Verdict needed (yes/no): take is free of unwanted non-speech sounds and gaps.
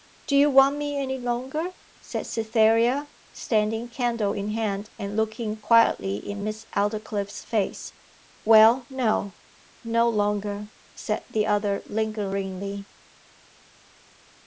yes